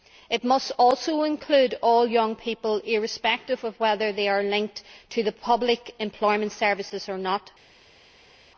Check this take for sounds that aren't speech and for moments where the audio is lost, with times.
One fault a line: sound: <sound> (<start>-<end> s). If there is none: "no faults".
no faults